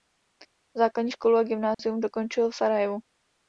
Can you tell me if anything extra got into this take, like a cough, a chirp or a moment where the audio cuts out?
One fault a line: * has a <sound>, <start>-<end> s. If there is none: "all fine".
* has a dropout, 1.7-1.8 s